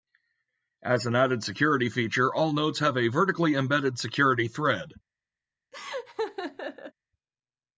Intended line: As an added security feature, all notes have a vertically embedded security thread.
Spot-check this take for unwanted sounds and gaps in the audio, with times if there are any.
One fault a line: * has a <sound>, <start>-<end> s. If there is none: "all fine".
* has a laugh, 5.7-6.9 s